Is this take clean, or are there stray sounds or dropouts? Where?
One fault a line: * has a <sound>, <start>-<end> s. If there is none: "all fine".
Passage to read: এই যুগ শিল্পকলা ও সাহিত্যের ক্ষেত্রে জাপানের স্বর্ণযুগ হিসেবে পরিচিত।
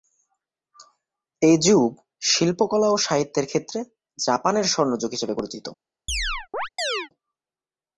* has a chirp, 6.1-7.1 s